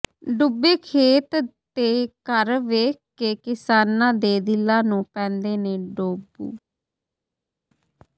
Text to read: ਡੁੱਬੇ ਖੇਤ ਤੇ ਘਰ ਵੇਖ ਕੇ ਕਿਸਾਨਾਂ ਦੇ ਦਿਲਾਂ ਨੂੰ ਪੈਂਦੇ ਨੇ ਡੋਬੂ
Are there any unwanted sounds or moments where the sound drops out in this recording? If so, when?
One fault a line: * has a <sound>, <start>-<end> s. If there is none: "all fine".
all fine